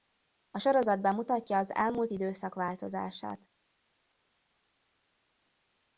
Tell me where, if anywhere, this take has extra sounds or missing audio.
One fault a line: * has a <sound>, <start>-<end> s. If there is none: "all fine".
all fine